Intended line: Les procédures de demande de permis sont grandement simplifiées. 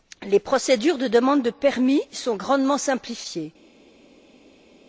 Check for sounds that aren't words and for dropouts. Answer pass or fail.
pass